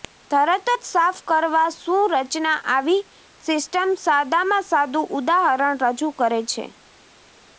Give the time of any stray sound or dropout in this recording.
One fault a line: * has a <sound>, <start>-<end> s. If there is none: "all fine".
all fine